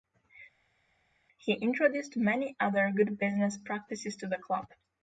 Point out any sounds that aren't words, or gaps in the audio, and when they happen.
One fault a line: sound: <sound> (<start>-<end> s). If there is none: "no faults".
no faults